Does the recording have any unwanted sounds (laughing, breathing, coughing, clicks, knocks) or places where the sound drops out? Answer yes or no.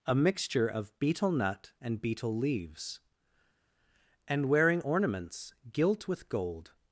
no